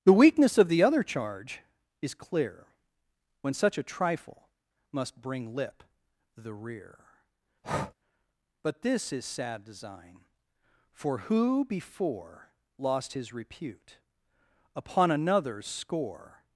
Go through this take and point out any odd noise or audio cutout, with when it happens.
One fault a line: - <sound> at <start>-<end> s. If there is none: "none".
- breath at 7.6-7.9 s